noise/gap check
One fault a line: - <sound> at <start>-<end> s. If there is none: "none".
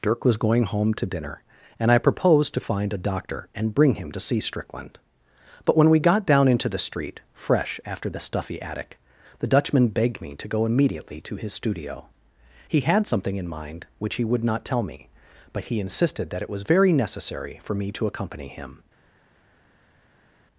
none